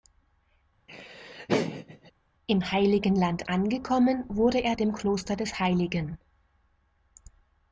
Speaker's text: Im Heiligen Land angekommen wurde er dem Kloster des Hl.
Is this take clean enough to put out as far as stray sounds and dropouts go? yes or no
no